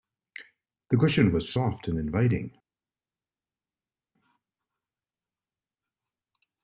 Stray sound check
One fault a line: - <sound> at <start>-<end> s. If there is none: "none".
none